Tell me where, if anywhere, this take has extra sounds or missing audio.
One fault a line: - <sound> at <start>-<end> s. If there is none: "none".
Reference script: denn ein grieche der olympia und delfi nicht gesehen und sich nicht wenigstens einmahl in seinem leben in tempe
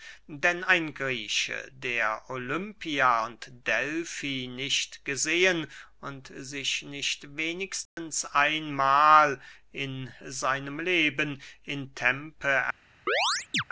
- dropout at 7.9-8.0 s
- chirp at 13.1-13.6 s